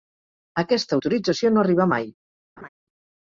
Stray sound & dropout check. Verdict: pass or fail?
fail